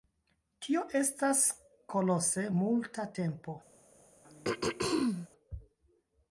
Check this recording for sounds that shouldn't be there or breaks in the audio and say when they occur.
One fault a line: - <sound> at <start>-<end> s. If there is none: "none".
- throat clearing at 4.2-5.3 s